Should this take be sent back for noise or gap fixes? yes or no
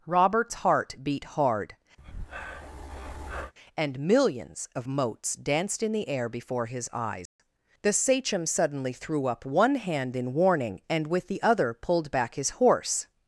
yes